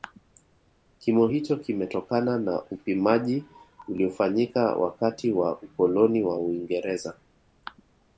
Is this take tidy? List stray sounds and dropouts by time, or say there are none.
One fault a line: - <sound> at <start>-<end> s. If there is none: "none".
none